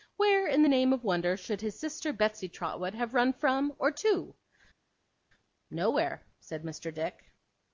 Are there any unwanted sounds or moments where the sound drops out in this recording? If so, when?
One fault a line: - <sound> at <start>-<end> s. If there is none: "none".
none